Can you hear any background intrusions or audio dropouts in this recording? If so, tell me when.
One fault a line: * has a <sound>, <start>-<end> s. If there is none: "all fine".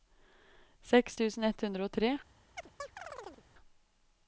* has a chirp, 2.6-3.5 s